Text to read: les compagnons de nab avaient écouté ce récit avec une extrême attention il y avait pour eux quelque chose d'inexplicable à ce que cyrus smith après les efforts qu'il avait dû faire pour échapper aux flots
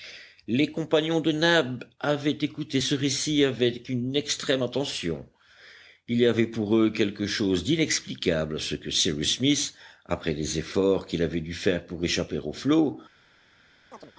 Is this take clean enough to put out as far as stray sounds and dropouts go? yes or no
no